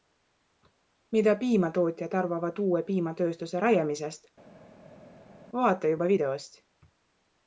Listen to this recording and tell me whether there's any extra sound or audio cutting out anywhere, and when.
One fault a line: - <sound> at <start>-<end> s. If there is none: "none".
none